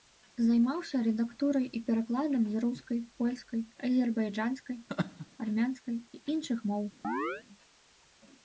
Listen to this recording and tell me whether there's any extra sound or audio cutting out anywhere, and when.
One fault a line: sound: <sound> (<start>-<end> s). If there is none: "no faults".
sound: laugh (4.9-5.3 s)
sound: chirp (7.0-7.4 s)